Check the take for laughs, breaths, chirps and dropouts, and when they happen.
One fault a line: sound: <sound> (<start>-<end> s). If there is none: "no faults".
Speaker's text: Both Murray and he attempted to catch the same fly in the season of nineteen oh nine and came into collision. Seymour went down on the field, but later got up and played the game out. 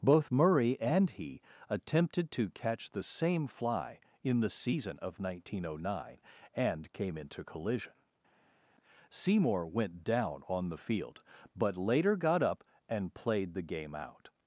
no faults